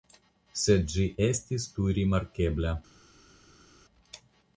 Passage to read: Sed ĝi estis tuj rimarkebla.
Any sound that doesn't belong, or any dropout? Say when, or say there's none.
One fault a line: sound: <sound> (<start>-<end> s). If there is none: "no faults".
no faults